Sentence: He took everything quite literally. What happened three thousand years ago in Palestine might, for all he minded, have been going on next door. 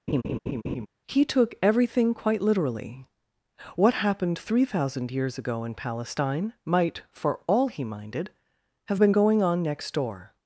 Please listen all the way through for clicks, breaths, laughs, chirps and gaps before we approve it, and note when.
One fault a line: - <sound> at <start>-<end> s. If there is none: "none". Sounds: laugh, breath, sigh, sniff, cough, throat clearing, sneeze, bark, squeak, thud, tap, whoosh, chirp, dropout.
- laugh at 0.1-0.9 s